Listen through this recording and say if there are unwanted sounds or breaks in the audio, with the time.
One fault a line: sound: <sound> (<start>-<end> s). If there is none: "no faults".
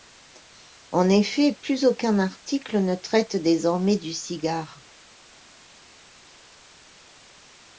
no faults